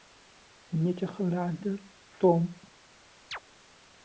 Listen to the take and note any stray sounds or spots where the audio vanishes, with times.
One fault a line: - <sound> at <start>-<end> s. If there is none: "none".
- chirp at 3.3-3.4 s